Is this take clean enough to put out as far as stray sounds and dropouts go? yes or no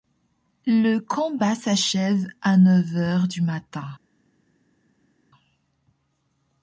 yes